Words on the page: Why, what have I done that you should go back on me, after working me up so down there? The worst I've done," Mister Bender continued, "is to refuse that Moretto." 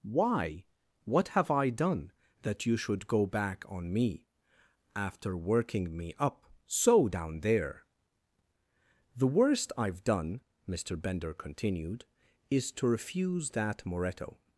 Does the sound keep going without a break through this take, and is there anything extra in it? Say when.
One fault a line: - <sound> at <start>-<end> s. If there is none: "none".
none